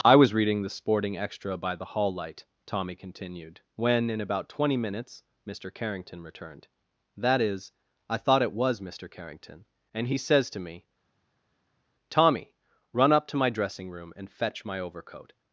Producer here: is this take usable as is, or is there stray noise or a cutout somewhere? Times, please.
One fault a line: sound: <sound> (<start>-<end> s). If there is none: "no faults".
no faults